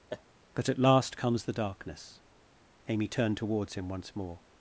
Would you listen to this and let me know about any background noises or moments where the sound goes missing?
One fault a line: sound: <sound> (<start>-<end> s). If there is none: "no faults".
sound: laugh (0.1-0.2 s)